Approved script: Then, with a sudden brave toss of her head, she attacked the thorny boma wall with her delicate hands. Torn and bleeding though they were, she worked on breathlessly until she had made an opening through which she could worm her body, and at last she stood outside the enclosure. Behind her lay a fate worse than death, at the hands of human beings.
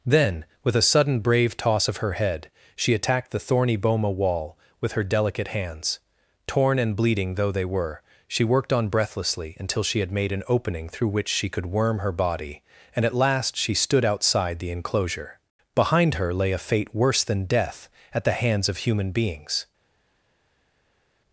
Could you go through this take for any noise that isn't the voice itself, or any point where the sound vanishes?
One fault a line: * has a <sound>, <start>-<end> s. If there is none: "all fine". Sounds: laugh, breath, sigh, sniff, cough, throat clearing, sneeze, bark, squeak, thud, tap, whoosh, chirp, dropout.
all fine